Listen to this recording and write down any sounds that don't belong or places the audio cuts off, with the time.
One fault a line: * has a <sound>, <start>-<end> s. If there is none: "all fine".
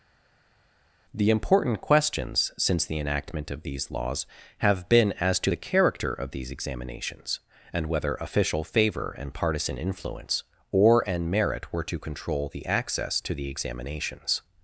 all fine